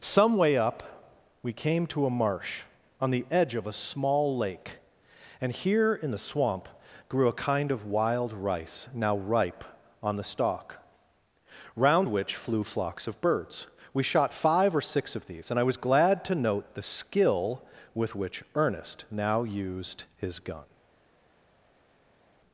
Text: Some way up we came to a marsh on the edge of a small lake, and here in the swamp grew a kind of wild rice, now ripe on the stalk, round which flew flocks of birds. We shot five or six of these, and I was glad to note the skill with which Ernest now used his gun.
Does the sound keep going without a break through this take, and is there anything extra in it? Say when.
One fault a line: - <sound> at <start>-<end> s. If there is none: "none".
none